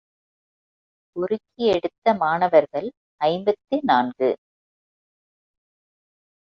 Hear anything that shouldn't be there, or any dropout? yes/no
no